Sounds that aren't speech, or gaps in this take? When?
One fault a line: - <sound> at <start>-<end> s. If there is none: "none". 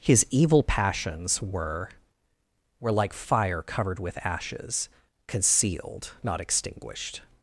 none